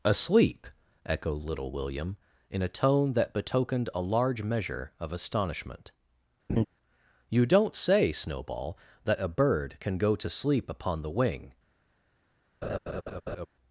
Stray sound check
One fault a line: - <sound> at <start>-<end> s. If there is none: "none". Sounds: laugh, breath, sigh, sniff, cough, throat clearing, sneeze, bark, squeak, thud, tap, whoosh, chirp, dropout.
- laugh at 6.5-6.7 s
- laugh at 12.6-13.5 s